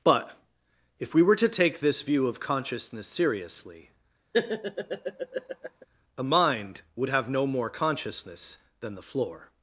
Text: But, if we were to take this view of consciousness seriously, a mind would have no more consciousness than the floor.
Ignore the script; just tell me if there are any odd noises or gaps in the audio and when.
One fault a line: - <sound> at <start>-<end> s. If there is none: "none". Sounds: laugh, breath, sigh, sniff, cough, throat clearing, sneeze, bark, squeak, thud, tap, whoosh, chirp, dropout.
- laugh at 4.3-5.9 s